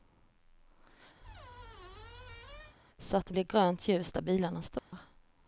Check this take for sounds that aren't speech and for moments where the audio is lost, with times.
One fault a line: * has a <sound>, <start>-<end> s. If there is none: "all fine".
* has a squeak, 1.2-2.8 s
* has a dropout, 4.8-4.9 s